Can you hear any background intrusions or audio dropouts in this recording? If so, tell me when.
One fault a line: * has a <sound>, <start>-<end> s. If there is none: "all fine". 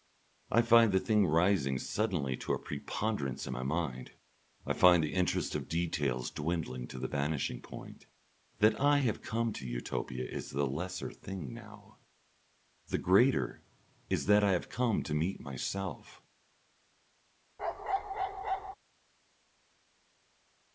* has a bark, 17.6-18.8 s